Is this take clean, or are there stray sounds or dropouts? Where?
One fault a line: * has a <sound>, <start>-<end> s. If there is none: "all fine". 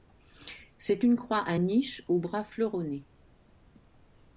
all fine